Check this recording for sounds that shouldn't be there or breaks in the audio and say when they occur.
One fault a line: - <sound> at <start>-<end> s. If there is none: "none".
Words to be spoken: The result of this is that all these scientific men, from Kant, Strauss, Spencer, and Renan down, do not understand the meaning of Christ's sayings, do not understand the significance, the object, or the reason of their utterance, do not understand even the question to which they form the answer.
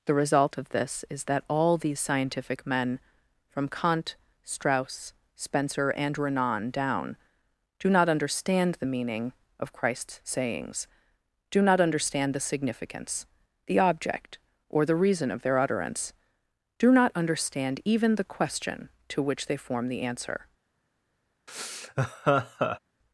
- laugh at 21.5-22.8 s